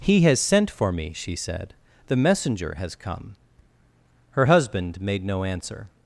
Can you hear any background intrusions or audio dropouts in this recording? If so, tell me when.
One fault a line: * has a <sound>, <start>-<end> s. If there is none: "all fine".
all fine